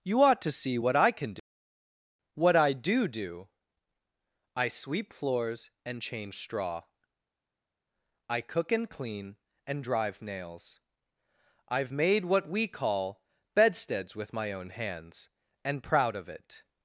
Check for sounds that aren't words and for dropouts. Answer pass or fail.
pass